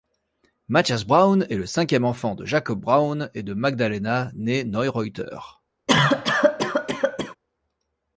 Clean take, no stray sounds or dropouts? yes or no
no